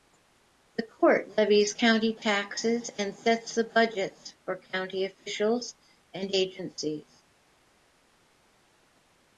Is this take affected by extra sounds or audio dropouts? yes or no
no